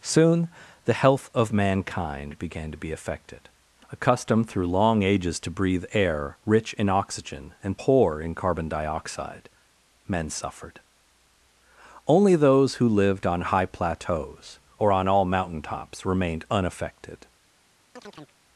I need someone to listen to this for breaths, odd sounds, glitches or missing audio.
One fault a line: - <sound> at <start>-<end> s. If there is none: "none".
- chirp at 18.0-18.4 s